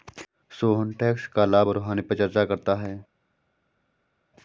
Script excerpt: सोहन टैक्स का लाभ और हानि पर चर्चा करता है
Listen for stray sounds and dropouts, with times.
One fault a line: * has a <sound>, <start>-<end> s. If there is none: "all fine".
all fine